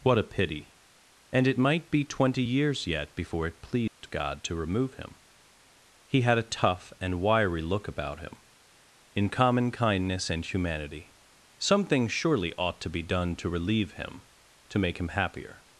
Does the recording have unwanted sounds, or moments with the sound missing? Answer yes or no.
yes